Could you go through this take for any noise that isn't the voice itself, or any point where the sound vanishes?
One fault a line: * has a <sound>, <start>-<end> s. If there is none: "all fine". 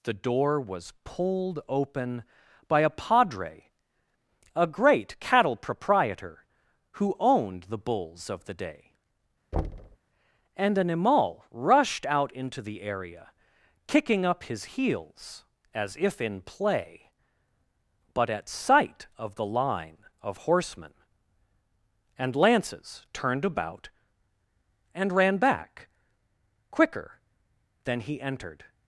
* has a thud, 9.5-10.0 s